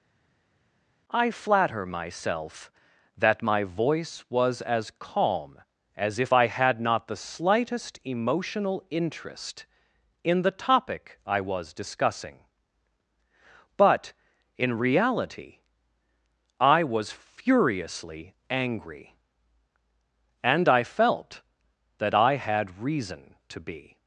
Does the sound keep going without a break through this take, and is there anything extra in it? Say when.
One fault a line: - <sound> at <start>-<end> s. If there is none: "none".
none